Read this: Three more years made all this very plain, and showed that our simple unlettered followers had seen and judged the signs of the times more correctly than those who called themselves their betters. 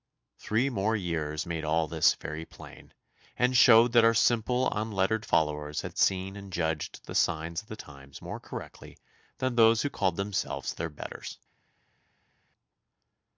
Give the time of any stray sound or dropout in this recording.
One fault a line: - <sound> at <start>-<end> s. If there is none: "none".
none